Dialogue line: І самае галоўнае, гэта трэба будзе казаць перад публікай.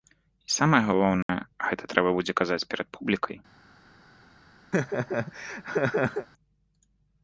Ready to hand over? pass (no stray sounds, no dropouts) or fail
fail